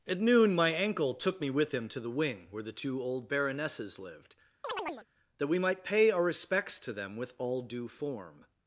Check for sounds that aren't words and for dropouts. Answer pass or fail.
fail